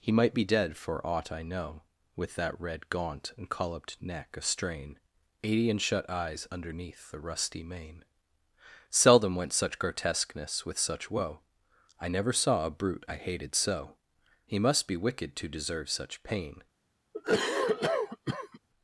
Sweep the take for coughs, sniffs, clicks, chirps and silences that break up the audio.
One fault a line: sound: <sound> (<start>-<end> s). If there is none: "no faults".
sound: cough (17.1-18.6 s)